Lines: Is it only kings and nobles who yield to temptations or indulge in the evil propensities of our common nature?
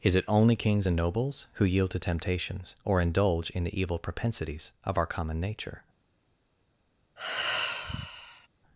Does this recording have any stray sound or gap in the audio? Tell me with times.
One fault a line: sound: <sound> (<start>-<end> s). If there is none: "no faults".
sound: sigh (7.2-8.5 s)